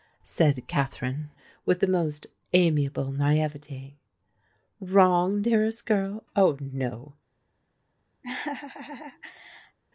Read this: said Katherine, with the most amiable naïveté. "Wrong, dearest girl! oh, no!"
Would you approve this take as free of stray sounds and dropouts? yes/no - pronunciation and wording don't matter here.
no